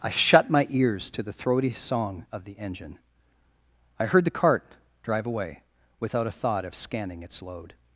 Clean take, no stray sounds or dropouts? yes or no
yes